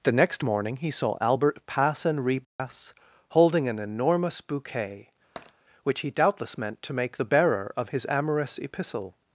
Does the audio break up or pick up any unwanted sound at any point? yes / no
yes